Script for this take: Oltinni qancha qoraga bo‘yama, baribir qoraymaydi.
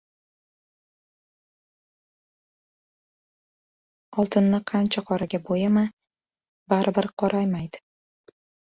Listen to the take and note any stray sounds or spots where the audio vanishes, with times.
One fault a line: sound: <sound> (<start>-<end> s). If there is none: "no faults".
no faults